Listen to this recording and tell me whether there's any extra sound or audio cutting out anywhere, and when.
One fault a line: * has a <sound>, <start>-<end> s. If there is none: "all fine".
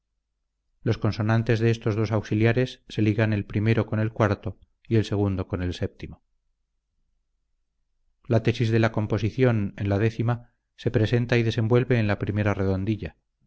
all fine